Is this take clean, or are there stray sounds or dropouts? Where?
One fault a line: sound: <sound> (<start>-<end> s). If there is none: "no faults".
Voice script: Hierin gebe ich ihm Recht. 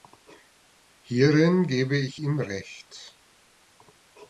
no faults